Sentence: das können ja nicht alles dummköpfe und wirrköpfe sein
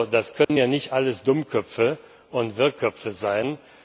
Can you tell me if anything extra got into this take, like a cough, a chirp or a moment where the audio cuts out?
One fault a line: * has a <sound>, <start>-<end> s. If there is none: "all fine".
* has a dropout, 0.4-0.5 s